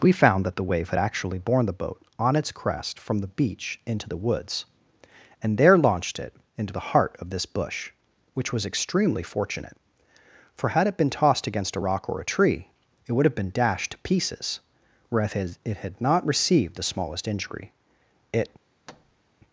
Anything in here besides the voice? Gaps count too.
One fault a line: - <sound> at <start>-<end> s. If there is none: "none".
- thud at 18.9-19.2 s